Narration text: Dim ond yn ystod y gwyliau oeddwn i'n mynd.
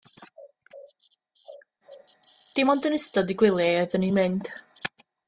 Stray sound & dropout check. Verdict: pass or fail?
pass